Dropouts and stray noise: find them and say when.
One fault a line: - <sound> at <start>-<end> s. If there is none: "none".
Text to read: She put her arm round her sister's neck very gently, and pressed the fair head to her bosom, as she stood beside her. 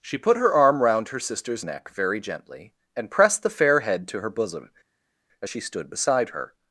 none